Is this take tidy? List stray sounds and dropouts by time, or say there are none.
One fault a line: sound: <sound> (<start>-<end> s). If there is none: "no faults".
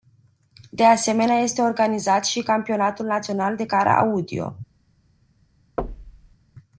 sound: thud (5.8-6.4 s)